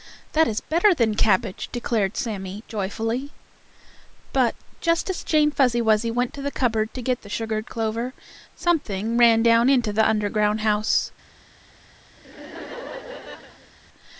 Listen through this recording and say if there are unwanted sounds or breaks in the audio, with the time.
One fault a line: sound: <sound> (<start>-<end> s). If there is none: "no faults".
sound: laugh (12.2-13.7 s)